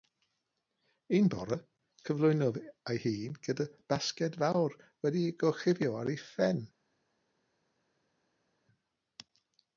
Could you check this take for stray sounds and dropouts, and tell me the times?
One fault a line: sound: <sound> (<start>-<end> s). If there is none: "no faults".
no faults